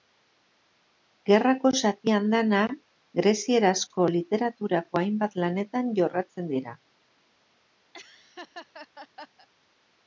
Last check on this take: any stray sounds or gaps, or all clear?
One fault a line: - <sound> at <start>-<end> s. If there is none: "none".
- laugh at 7.9-9.5 s